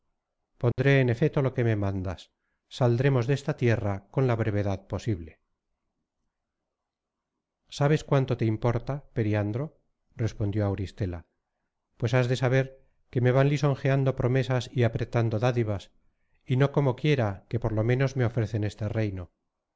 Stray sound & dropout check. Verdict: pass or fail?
fail